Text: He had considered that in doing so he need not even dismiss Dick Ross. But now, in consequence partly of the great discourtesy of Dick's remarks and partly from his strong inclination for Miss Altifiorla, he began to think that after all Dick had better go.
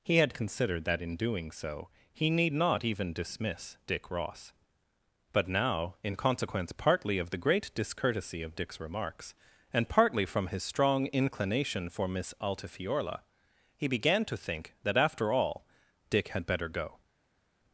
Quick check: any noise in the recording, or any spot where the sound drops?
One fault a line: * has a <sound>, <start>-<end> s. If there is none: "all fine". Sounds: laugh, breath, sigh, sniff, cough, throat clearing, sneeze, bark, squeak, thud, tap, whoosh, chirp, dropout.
all fine